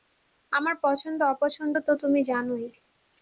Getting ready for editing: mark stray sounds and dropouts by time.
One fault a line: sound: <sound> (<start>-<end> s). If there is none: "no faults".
no faults